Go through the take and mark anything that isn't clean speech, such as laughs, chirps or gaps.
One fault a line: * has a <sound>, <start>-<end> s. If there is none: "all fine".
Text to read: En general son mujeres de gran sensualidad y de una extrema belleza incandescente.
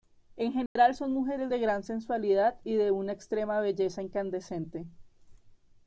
* has a dropout, 0.7-0.8 s